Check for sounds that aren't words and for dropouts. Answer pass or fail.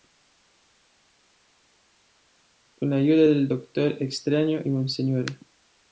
pass